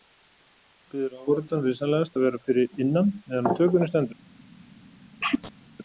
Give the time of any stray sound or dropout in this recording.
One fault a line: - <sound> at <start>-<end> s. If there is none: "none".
- sneeze at 5.2-5.7 s